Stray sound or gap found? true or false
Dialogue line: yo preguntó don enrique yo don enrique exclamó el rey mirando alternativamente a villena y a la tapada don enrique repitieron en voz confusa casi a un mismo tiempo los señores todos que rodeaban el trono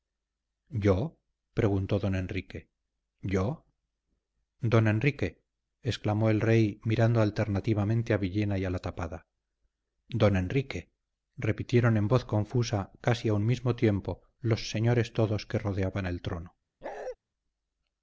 true